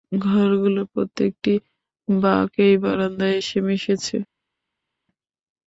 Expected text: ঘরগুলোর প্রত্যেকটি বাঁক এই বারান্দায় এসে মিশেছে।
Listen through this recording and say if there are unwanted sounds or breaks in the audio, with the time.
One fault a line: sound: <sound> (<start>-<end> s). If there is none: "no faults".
no faults